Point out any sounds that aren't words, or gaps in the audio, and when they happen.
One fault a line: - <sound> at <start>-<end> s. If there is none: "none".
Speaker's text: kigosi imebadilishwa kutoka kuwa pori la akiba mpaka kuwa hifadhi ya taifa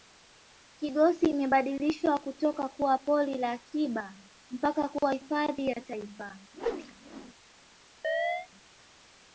- whoosh at 6.5-7.3 s
- chirp at 8.0-8.5 s